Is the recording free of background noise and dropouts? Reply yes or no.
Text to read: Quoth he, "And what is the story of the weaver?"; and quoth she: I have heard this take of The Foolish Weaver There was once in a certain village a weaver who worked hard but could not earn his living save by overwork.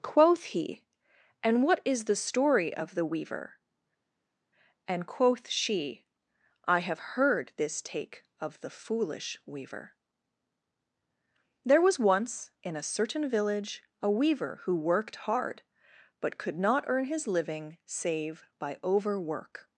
yes